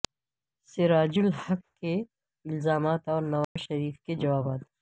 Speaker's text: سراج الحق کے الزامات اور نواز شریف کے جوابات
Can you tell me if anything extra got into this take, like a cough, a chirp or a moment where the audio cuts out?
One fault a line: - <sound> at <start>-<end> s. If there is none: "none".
- dropout at 3.4-3.6 s